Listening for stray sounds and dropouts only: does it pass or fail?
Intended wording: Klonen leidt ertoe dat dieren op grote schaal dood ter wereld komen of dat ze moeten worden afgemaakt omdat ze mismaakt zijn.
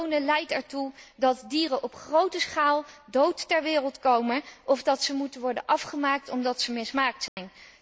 fail